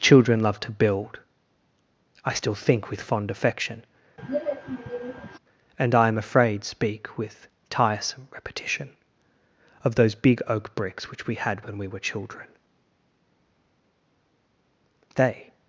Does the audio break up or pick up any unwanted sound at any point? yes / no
yes